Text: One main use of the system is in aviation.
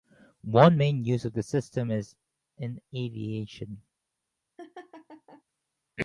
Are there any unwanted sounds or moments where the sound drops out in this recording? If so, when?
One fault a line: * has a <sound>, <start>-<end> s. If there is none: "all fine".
* has a laugh, 4.6-5.4 s